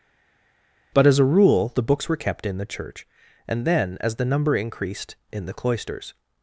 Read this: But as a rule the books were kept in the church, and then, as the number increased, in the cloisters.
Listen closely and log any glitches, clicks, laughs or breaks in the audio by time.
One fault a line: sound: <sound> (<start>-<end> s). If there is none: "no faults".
no faults